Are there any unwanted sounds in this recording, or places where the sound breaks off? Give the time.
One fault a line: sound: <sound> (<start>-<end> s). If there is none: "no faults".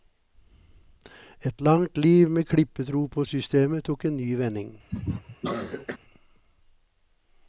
sound: cough (4.9-6.0 s)